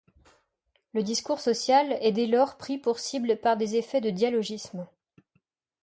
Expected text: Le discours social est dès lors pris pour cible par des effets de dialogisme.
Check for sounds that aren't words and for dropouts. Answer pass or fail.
pass